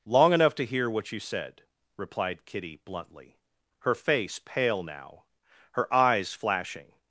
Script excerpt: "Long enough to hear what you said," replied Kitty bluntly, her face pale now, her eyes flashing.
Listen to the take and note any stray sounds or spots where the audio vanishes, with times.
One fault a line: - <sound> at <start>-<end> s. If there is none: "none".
none